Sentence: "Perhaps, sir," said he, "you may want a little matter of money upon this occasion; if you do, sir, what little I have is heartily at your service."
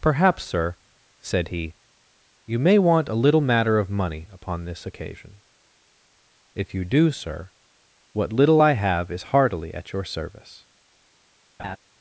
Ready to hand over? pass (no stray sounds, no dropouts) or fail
fail